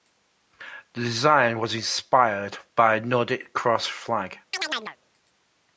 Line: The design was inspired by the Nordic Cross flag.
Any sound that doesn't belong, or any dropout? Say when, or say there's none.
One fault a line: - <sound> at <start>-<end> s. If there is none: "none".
- chirp at 4.5-5.0 s